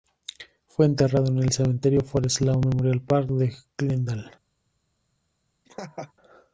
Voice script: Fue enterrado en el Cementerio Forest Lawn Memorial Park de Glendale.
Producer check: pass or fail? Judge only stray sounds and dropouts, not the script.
fail